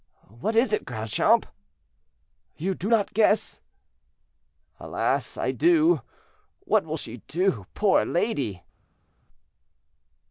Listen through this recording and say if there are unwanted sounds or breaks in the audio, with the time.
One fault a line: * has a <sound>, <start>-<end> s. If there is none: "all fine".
all fine